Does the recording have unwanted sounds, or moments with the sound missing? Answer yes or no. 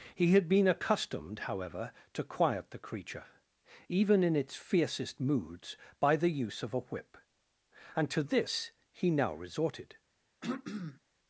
yes